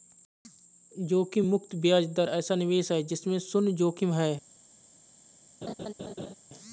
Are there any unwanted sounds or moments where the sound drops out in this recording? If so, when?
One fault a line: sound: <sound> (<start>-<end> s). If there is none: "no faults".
sound: laugh (5.6-6.3 s)